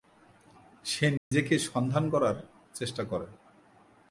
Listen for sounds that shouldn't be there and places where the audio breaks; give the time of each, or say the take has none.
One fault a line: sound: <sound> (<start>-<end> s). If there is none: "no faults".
sound: dropout (1.2-1.3 s)